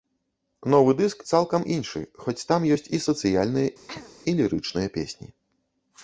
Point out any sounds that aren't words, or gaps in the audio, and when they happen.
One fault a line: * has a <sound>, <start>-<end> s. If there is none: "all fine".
* has a throat clearing, 3.9-4.1 s